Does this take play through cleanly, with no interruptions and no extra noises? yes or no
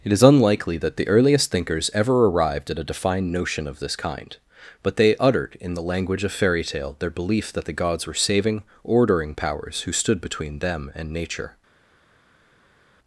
yes